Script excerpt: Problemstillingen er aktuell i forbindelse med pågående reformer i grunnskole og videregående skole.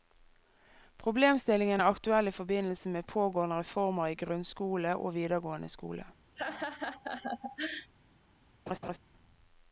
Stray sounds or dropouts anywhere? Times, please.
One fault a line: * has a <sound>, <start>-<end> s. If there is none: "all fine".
* has a laugh, 6.4-7.9 s
* has a laugh, 8.7-9.0 s